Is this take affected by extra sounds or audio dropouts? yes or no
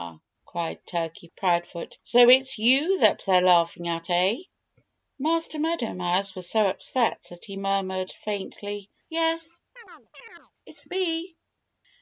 yes